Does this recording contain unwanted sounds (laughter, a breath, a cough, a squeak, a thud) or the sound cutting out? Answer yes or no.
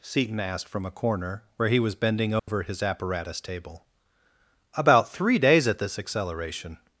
yes